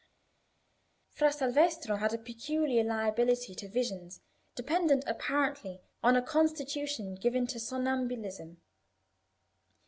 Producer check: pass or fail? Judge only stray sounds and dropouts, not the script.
pass